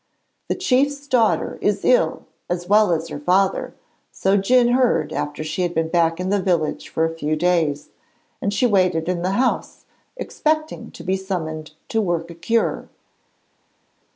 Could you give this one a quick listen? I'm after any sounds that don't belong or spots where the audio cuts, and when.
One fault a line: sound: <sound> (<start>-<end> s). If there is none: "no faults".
no faults